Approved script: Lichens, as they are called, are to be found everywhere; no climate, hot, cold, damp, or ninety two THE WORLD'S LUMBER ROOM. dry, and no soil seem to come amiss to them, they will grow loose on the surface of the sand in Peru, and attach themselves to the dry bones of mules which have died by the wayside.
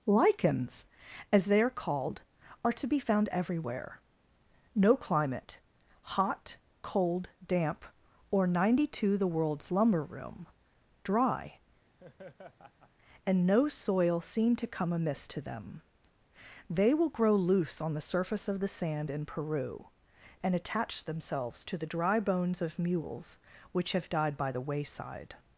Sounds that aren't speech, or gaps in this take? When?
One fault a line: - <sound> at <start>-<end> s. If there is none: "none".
- laugh at 12.0-12.9 s